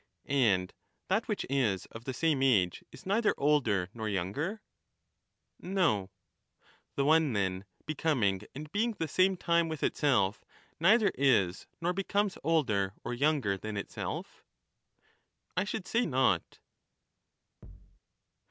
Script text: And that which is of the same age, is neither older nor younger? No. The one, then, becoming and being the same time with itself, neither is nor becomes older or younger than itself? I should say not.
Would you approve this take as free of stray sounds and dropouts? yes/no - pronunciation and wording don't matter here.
no